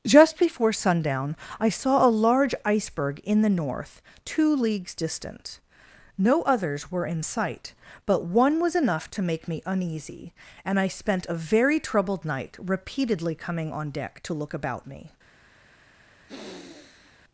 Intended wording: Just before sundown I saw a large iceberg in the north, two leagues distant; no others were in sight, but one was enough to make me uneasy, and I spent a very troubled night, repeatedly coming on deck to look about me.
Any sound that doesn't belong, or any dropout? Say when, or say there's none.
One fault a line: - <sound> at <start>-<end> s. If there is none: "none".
- sniff at 16.3-17.2 s